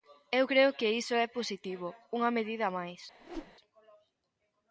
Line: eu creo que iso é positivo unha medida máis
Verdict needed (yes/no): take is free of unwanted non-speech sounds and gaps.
no